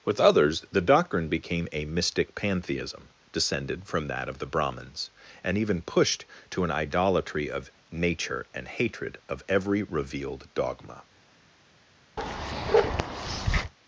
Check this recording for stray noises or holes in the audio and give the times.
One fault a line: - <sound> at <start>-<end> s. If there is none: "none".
- bark at 12.2-13.7 s